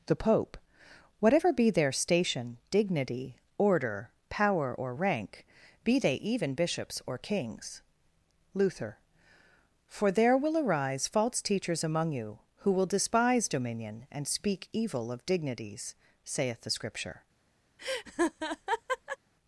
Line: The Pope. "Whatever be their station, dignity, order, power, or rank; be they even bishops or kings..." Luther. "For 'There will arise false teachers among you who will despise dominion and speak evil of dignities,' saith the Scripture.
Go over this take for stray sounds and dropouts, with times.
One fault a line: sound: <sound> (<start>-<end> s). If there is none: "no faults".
sound: laugh (17.8-19.2 s)